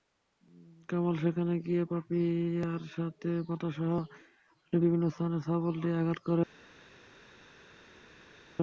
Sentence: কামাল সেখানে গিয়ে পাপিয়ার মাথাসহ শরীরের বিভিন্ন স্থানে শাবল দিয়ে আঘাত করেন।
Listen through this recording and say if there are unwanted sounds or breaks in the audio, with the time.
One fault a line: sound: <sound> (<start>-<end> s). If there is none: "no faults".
no faults